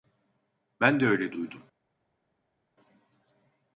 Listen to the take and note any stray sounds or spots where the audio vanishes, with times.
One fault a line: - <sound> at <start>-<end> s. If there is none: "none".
none